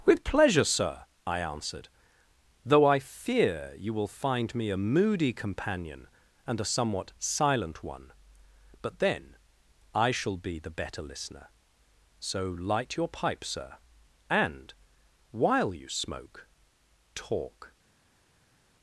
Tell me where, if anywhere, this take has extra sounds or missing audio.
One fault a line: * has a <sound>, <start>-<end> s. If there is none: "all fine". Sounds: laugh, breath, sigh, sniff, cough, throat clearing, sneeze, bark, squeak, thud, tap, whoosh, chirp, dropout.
all fine